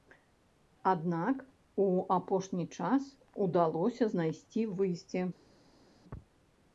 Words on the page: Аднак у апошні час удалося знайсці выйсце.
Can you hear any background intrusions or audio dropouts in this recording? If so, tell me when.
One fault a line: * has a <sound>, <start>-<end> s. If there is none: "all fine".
all fine